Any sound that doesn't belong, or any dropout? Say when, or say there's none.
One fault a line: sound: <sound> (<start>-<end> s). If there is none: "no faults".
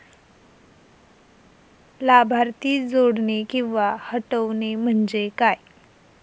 no faults